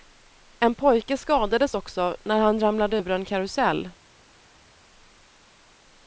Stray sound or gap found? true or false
false